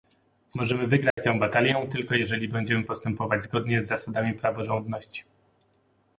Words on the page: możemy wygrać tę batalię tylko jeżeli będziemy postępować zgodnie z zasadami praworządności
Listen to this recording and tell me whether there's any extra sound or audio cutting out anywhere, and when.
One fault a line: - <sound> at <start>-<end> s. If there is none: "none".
- dropout at 1.1-1.2 s